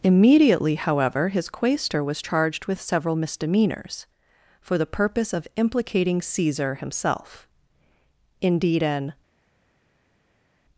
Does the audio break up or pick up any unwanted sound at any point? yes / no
no